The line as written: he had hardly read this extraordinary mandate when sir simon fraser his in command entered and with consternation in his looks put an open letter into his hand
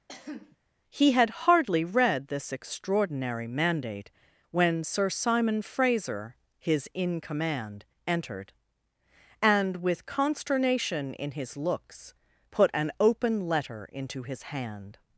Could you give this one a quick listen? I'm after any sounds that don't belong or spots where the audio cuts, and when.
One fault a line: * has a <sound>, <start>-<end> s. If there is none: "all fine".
* has a cough, 0.1-0.6 s